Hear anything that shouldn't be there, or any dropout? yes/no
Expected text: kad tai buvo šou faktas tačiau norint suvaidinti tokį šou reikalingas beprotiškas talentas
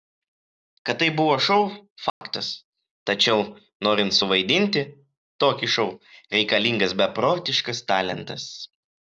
yes